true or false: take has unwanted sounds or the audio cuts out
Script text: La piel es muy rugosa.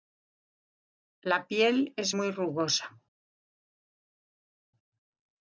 false